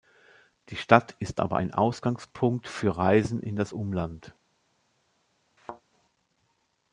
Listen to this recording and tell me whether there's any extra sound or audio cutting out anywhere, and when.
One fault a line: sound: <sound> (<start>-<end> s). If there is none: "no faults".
sound: thud (5.6-5.8 s)